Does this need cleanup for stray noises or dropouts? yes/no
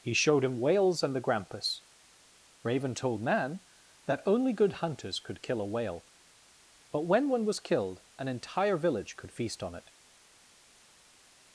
no